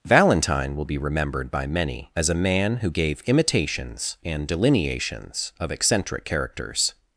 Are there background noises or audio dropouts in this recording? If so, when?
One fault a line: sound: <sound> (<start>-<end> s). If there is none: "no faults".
no faults